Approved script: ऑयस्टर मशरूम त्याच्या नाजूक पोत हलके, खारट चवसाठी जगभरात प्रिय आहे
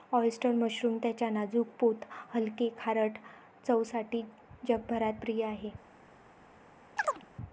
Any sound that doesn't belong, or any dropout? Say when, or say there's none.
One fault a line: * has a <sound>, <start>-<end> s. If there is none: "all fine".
* has a chirp, 7.0-7.3 s